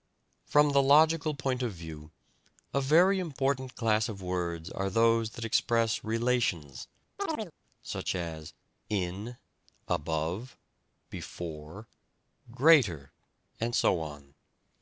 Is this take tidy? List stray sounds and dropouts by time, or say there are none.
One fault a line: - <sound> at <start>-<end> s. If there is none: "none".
- chirp at 7.2-7.5 s